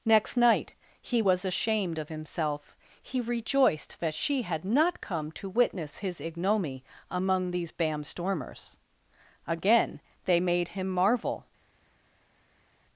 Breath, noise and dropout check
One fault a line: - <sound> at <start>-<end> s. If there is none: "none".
none